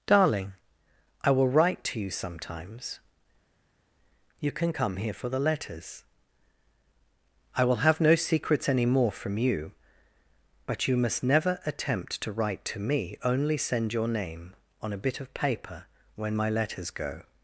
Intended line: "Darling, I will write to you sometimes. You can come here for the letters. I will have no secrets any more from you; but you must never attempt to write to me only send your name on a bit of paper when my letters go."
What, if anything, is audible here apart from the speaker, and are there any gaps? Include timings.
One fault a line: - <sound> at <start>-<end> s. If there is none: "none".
none